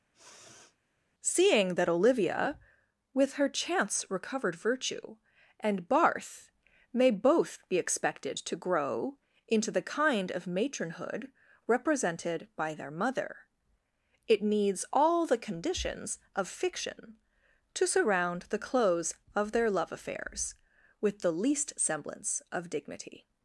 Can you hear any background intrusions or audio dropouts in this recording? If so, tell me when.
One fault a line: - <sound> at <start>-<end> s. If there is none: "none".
- sniff at 0.1-0.8 s